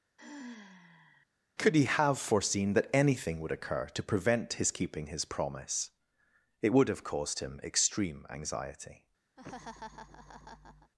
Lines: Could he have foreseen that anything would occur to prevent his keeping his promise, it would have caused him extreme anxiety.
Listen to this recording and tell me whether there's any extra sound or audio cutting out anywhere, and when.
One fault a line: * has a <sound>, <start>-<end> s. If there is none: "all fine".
* has a sigh, 0.2-1.3 s
* has a laugh, 9.4-10.9 s